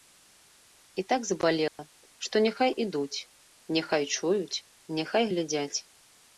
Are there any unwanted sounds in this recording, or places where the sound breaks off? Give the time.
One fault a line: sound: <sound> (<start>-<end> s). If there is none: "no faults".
sound: dropout (1.7-1.8 s)